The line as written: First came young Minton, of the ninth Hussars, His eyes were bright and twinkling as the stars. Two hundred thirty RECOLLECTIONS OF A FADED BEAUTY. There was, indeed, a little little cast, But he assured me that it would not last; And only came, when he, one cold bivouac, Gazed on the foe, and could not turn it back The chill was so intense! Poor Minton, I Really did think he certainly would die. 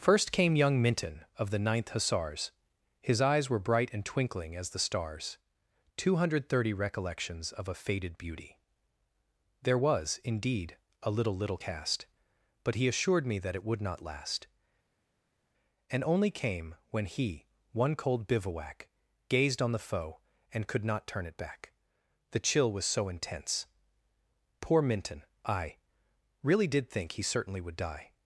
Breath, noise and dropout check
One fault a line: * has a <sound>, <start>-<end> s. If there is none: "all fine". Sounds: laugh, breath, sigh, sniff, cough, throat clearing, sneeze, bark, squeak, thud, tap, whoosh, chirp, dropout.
all fine